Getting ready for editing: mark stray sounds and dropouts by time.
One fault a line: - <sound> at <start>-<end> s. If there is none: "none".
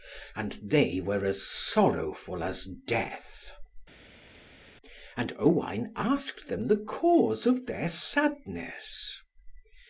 none